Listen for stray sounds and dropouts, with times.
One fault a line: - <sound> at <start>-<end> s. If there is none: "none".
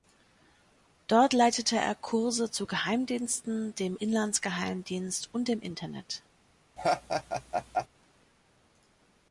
- laugh at 6.8-7.9 s